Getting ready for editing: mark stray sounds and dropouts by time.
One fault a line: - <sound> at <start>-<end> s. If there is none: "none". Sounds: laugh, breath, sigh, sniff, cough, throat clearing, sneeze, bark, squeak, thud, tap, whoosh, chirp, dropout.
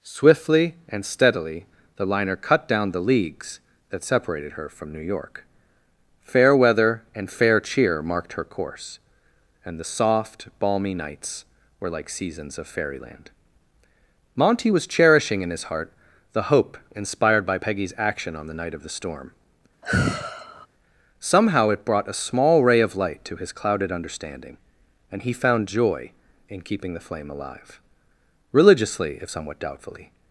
- sigh at 19.8-20.7 s